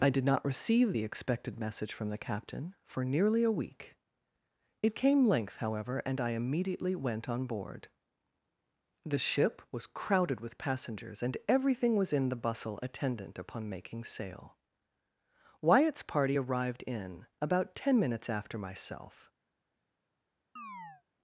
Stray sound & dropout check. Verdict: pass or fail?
fail